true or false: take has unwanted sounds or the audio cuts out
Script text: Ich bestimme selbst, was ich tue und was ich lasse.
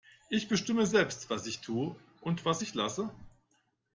false